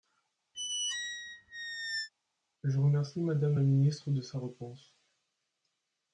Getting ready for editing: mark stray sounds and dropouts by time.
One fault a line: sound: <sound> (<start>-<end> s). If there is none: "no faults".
sound: squeak (0.5-2.1 s)